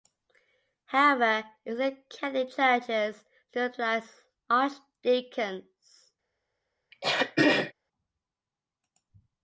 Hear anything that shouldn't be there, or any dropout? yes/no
yes